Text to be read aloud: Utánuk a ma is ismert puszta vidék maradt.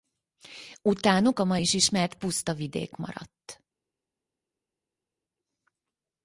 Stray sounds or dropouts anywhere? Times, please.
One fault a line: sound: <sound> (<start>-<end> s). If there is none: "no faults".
no faults